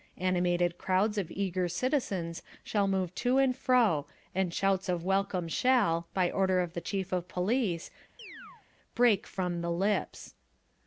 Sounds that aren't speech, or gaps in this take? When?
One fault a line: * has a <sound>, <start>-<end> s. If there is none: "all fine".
* has a chirp, 8.2-8.7 s